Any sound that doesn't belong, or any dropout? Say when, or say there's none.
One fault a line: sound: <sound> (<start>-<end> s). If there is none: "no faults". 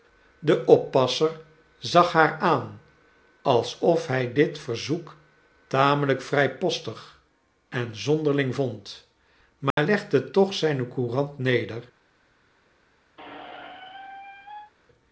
sound: dropout (9.7-9.8 s)
sound: squeak (13.2-14.7 s)